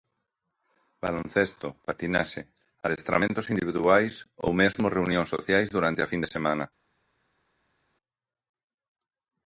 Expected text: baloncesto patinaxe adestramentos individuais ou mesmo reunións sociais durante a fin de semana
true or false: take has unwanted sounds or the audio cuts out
false